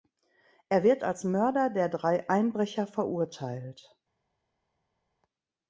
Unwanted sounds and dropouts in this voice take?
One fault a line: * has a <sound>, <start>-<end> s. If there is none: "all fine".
all fine